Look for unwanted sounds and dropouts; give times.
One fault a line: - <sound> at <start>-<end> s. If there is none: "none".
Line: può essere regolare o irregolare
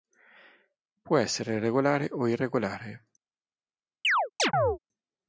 - chirp at 4.0-4.8 s